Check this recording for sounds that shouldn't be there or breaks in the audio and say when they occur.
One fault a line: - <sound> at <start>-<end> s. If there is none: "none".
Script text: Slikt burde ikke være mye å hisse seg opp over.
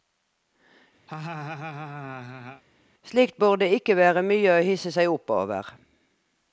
- laugh at 1.1-2.6 s